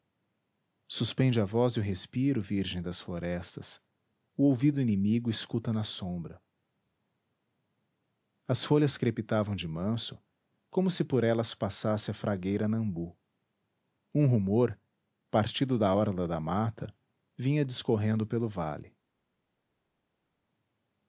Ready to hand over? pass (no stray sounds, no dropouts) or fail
pass